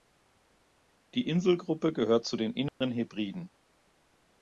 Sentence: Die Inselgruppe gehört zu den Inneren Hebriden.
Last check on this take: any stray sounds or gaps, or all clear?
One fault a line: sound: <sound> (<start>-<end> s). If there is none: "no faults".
sound: dropout (2.7-2.8 s)